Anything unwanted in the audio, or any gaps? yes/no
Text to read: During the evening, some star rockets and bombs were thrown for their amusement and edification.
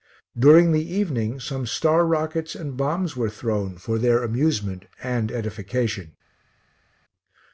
no